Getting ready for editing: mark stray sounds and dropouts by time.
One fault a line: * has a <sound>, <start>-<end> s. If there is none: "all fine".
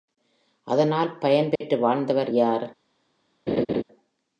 * has a dropout, 1.6-1.6 s
* has a laugh, 3.5-3.8 s